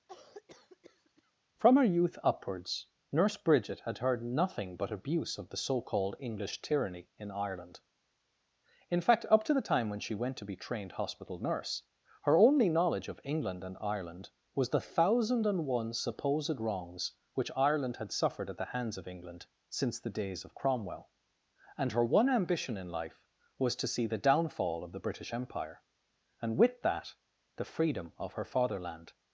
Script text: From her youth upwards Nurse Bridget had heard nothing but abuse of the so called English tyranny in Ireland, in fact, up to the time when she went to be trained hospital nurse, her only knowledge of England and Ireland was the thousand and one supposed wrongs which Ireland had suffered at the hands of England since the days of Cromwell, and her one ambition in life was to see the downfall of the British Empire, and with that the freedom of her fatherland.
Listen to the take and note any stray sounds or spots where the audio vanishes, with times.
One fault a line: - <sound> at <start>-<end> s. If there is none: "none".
- cough at 0.1-1.3 s